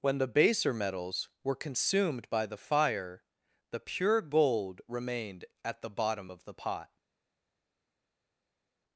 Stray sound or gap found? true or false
false